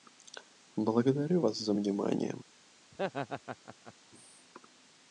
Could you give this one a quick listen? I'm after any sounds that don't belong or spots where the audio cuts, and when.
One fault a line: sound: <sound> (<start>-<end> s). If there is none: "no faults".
sound: laugh (2.9-3.9 s)